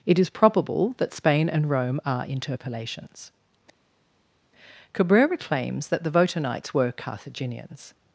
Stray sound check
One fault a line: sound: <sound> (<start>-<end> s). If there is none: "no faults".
no faults